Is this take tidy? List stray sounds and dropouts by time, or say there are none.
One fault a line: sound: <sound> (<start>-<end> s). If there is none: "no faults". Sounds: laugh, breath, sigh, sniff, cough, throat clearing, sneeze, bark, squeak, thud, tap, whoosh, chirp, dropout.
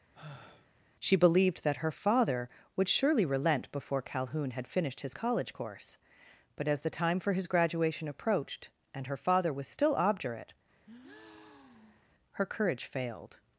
sound: sigh (0.1-0.7 s)
sound: breath (10.8-12.1 s)